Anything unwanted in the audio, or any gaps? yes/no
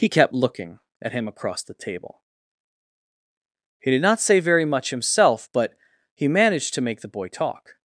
no